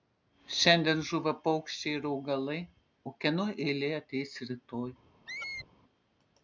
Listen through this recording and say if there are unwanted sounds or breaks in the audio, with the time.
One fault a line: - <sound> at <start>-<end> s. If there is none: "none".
- squeak at 5.3-5.7 s